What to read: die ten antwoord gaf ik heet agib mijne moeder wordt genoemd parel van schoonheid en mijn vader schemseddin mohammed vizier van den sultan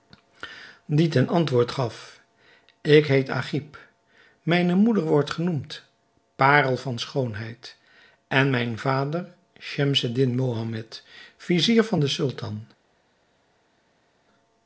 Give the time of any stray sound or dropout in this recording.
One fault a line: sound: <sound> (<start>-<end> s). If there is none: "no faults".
no faults